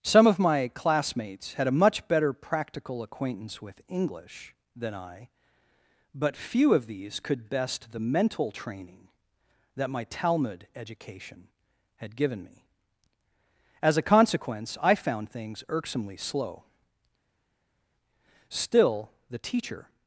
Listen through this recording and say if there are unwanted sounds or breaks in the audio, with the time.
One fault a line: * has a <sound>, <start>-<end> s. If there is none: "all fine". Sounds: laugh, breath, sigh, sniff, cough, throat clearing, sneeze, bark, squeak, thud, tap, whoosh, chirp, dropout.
all fine